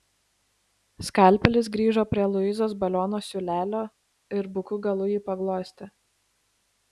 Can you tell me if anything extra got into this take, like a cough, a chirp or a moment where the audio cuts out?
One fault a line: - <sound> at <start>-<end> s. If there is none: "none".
none